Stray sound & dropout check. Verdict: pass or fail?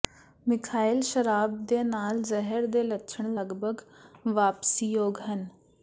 pass